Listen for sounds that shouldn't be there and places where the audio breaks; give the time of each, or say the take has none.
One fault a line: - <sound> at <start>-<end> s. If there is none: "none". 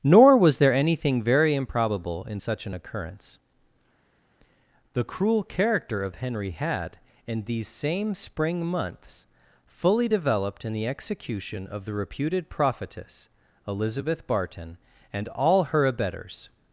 none